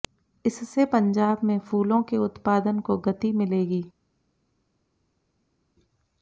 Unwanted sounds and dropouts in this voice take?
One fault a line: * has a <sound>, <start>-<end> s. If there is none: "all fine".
all fine